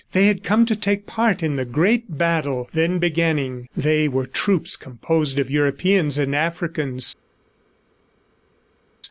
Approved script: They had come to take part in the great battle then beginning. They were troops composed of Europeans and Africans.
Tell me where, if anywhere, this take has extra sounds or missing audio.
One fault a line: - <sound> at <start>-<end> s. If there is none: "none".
none